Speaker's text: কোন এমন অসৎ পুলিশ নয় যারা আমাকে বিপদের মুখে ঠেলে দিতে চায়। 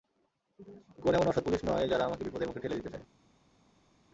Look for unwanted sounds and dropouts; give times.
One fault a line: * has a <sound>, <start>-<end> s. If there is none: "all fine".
all fine